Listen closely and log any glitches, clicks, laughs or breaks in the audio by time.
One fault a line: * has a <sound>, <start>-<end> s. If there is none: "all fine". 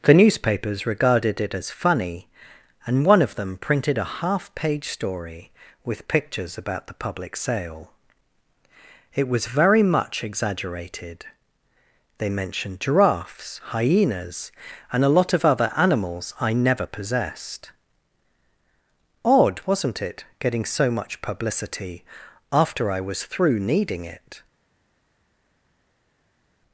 all fine